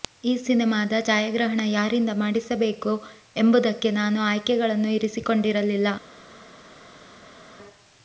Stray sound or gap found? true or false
false